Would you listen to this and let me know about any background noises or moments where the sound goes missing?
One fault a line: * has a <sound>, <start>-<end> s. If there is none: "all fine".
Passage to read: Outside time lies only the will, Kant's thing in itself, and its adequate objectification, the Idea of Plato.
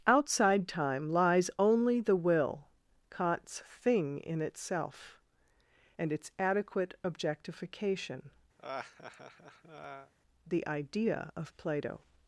* has a laugh, 8.6-10.1 s